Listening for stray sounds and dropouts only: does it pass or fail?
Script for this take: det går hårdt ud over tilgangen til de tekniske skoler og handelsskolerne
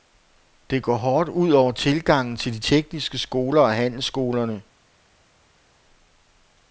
pass